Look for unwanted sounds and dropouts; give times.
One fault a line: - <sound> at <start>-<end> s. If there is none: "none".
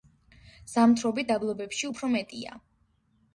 none